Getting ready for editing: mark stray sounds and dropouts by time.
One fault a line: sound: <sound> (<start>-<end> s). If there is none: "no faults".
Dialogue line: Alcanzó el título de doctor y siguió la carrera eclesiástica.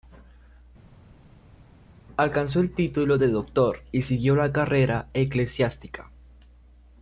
no faults